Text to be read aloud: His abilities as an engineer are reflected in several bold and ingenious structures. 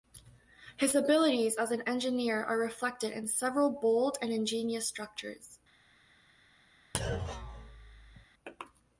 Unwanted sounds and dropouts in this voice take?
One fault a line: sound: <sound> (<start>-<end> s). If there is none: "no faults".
sound: thud (6.9-8.3 s)